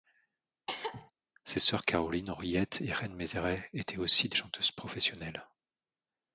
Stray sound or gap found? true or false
true